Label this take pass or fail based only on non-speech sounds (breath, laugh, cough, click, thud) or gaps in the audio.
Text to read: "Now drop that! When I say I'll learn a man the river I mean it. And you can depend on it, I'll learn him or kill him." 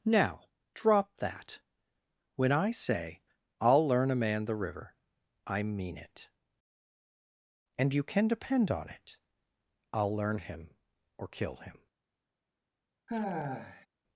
fail